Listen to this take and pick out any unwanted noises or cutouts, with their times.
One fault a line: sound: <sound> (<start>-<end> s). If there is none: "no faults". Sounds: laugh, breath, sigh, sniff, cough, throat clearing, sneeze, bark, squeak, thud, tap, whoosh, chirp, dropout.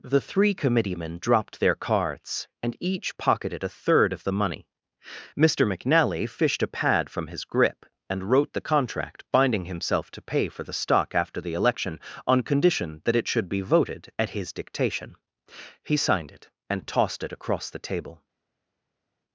no faults